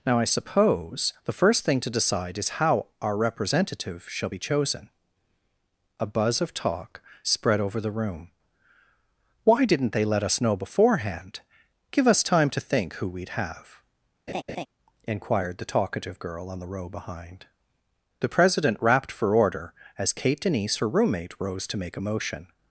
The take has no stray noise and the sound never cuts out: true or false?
false